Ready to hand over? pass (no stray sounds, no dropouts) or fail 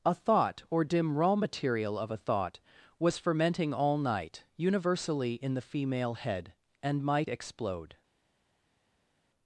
pass